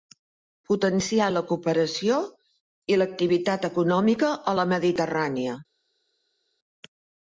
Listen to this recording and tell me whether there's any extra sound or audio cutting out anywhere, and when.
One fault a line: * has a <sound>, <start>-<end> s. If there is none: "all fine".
all fine